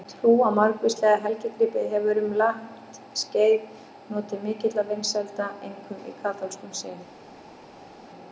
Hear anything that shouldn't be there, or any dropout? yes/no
no